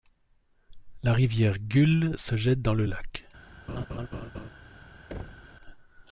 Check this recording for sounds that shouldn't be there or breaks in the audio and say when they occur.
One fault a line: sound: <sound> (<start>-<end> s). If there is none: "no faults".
sound: laugh (3.7-4.5 s)
sound: thud (5.1-5.6 s)